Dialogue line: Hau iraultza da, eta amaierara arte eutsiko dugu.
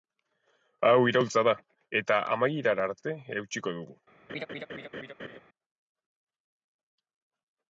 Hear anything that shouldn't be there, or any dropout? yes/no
yes